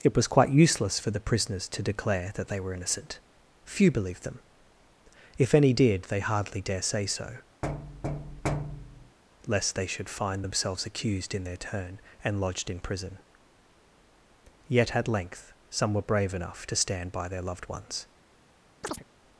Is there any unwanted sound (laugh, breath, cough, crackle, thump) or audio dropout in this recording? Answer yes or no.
yes